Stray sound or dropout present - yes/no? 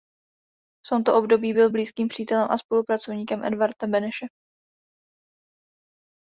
no